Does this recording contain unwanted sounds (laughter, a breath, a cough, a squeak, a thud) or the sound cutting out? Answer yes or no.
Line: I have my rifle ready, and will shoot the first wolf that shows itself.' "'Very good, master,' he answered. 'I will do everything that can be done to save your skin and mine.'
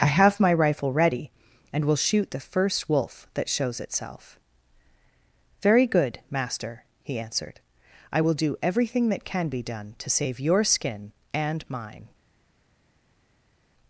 no